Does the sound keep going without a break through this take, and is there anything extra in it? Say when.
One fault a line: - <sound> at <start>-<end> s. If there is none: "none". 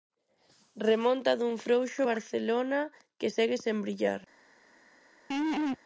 - laugh at 5.3-5.8 s